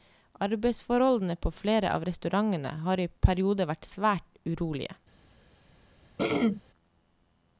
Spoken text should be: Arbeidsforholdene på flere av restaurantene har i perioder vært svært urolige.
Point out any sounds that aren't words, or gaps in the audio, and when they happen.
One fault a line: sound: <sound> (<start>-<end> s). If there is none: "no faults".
sound: throat clearing (6.2-6.6 s)